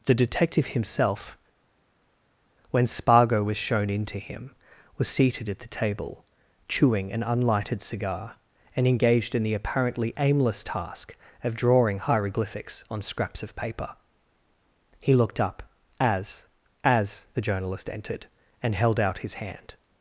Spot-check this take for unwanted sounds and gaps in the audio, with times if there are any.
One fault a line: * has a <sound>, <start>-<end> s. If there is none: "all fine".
all fine